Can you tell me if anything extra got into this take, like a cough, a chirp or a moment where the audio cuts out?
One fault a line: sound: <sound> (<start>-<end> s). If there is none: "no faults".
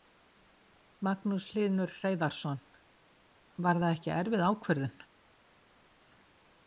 no faults